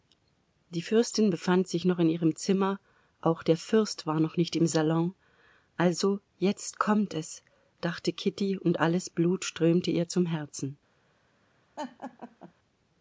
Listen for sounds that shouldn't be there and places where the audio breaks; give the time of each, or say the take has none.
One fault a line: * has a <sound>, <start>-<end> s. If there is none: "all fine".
* has a laugh, 11.8-12.5 s